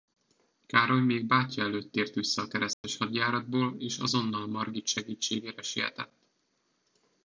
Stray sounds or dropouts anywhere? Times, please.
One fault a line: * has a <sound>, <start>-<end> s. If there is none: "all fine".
* has a dropout, 2.7-2.8 s